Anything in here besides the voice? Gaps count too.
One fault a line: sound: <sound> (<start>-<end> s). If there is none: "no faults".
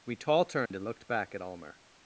sound: dropout (0.7-0.7 s)